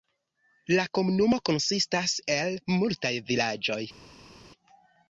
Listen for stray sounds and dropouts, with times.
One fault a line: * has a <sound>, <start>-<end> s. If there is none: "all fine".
all fine